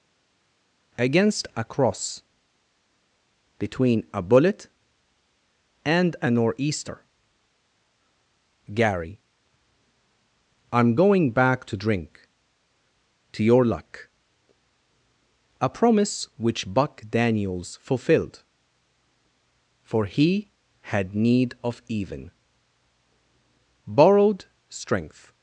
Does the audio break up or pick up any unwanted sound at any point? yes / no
no